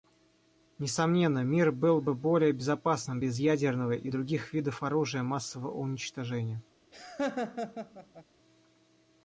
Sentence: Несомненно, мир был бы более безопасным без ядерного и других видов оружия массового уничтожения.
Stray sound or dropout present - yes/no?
yes